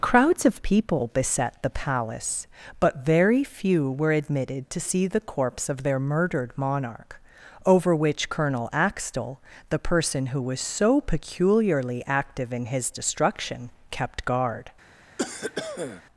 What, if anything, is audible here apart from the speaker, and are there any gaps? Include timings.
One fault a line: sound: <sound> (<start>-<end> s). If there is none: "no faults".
sound: cough (15.2-16.0 s)